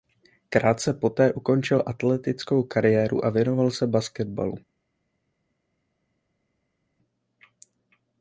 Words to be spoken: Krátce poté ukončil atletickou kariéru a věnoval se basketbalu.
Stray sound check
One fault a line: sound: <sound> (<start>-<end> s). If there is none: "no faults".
no faults